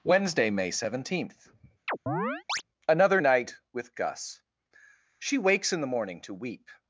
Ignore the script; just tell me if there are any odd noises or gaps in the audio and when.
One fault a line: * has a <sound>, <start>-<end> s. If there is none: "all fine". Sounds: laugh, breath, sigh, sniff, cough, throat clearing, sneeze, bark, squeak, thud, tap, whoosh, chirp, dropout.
* has a chirp, 1.9-2.6 s